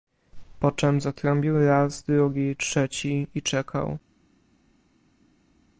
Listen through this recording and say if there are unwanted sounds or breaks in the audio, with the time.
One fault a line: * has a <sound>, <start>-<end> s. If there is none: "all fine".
all fine